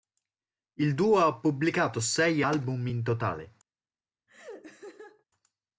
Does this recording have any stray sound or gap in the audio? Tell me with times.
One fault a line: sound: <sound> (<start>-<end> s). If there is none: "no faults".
sound: laugh (4.3-5.2 s)